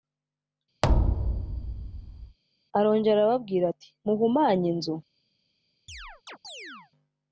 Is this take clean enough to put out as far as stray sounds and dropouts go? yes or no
no